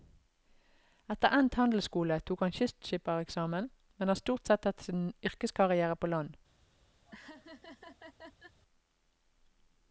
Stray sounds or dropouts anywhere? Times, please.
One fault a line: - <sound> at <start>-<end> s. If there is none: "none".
- laugh at 7.0-8.6 s